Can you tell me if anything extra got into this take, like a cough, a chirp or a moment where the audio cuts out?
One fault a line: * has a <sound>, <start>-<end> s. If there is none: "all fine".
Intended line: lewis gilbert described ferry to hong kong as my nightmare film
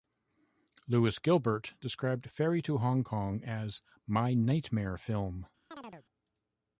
* has a chirp, 5.7-6.1 s